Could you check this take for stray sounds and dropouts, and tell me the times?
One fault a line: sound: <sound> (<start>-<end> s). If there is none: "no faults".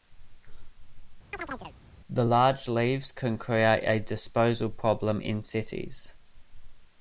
sound: chirp (1.3-1.8 s)